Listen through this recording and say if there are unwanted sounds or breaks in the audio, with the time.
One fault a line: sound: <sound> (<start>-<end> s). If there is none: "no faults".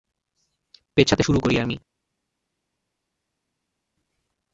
no faults